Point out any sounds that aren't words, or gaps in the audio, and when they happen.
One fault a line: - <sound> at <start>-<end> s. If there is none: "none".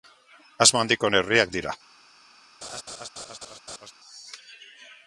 - laugh at 2.6-3.9 s